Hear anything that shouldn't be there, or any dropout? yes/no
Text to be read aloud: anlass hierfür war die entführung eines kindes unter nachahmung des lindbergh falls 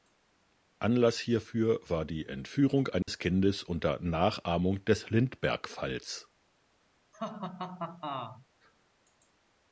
yes